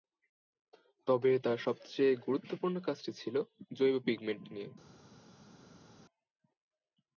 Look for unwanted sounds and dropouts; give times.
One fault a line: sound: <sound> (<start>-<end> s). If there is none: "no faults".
no faults